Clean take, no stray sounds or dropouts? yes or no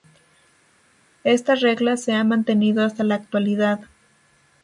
yes